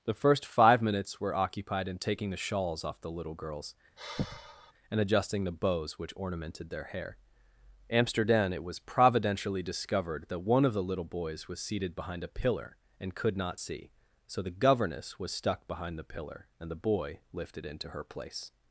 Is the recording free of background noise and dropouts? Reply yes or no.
no